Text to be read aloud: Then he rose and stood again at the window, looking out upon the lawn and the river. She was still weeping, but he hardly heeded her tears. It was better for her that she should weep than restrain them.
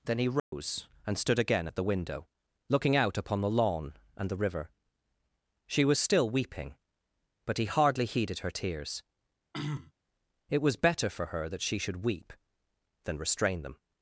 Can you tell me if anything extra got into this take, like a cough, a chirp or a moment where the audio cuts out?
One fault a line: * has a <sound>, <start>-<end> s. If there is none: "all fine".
* has a dropout, 0.4-0.5 s
* has a throat clearing, 9.5-9.9 s